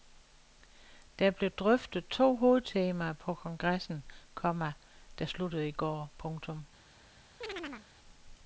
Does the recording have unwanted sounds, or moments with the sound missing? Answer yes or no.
yes